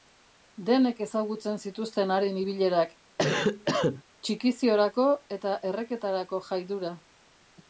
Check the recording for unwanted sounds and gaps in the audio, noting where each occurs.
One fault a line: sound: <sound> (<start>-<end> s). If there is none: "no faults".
sound: cough (3.2-4.0 s)